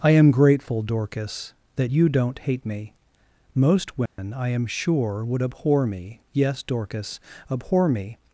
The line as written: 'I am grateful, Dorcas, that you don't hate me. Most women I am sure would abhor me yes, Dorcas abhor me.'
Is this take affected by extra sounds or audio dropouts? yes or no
yes